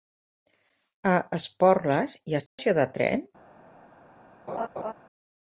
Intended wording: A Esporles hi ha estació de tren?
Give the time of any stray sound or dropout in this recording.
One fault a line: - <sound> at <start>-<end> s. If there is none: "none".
- dropout at 2.5-2.6 s
- laugh at 4.5-4.9 s